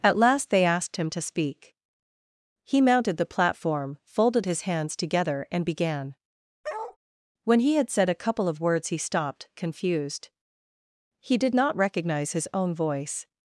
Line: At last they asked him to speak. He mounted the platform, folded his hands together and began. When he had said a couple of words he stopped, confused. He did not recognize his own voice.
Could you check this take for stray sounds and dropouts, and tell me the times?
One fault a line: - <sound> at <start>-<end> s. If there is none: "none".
- bark at 6.6-7.0 s